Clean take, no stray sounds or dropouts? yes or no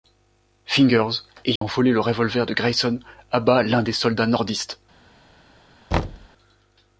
no